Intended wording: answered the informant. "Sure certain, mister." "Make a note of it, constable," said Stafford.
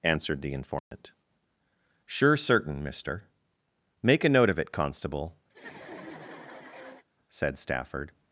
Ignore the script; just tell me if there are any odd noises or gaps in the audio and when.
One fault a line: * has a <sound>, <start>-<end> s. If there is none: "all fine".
* has a dropout, 0.8-0.9 s
* has a laugh, 5.5-7.0 s